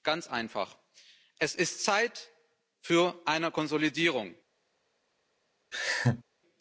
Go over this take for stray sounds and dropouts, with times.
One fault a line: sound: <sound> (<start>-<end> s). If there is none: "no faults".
sound: laugh (5.7-6.2 s)